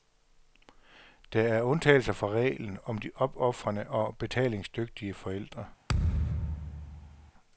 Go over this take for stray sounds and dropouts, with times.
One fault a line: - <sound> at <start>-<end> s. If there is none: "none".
- thud at 5.9-7.3 s